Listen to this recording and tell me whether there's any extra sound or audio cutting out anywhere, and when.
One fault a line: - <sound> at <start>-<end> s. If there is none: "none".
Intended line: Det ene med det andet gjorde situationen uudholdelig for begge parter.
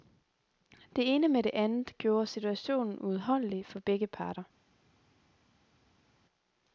none